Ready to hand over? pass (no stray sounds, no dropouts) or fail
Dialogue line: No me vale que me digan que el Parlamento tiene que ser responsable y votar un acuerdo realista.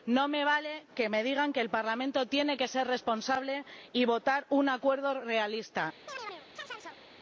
fail